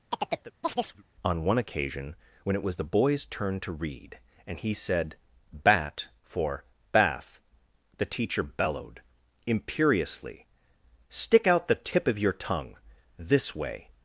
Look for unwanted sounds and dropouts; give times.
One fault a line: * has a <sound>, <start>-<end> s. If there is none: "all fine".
* has a chirp, 0.1-1.0 s